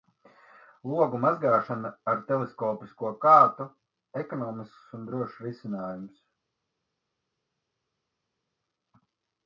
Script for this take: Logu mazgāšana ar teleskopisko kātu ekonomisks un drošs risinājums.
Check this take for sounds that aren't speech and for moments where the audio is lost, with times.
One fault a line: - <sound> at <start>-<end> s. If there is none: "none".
none